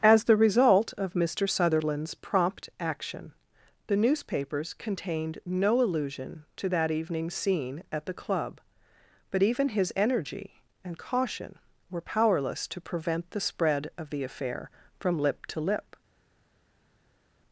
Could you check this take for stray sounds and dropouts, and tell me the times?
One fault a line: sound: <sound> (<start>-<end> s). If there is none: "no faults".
no faults